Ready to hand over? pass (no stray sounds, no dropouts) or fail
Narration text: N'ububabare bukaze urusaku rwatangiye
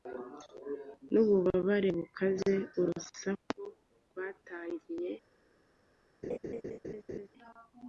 fail